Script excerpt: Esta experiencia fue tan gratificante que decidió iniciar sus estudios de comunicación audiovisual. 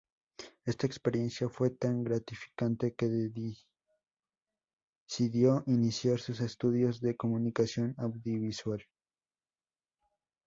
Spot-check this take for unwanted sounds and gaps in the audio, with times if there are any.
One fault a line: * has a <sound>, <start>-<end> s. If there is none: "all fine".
all fine